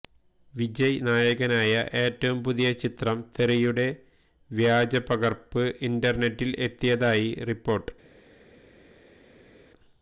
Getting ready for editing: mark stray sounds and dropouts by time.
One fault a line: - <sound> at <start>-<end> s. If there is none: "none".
none